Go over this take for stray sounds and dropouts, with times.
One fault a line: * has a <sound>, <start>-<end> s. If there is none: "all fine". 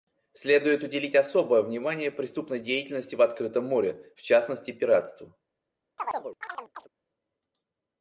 * has a chirp, 6.0-6.9 s